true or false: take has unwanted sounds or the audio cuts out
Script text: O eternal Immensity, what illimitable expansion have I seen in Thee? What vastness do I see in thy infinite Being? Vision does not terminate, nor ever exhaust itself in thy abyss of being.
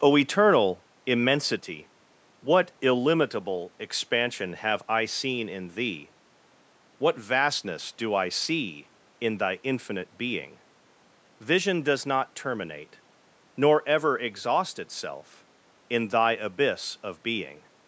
false